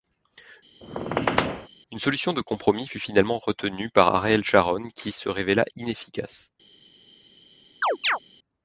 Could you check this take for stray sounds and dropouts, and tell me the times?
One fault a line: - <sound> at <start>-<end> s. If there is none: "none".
- squeak at 0.8-1.7 s
- chirp at 7.8-8.2 s